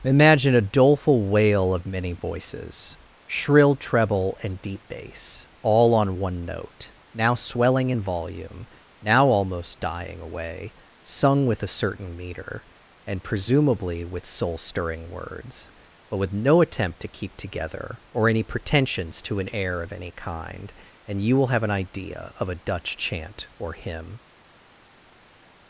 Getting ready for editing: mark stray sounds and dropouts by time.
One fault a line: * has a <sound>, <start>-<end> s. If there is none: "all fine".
all fine